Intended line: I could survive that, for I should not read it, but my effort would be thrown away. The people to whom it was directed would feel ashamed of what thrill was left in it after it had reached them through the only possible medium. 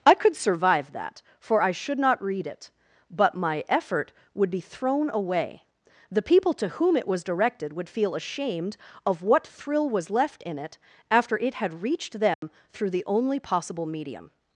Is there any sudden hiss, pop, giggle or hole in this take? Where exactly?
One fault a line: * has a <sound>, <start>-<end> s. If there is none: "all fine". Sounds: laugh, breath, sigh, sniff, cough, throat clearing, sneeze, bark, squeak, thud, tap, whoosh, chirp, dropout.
* has a dropout, 12.3-12.4 s